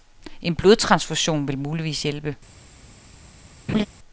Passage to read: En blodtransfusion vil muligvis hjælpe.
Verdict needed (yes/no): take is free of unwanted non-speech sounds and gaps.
no